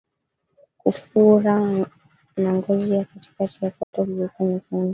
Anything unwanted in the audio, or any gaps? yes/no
yes